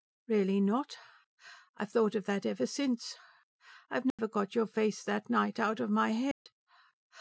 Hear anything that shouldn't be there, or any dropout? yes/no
yes